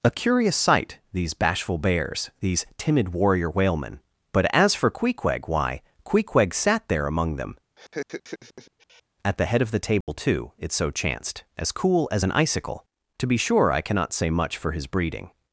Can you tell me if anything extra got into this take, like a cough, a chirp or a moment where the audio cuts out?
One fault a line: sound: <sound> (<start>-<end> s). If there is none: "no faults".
sound: laugh (7.8-9.0 s)
sound: dropout (10.0-10.1 s)